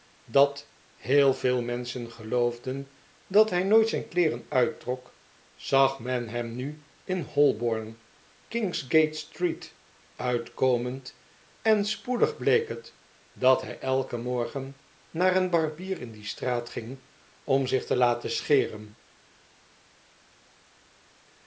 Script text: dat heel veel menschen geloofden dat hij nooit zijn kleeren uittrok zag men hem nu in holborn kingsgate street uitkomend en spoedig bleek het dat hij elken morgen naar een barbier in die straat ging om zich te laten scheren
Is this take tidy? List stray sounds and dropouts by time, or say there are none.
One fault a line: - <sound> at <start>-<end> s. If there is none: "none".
none